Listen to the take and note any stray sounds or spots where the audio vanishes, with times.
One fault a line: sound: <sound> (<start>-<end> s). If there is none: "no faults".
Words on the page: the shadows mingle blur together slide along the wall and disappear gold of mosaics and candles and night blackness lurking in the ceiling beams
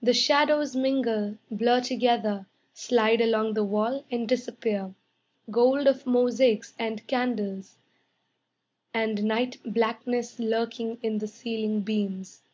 no faults